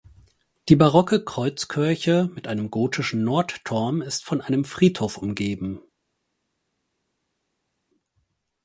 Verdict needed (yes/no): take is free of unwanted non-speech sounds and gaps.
yes